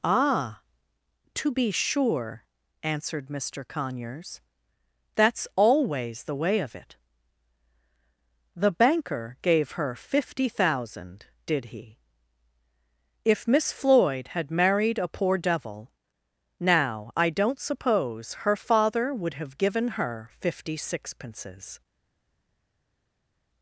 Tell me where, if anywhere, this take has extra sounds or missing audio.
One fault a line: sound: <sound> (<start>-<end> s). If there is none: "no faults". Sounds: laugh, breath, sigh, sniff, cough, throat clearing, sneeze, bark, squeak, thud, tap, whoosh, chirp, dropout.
no faults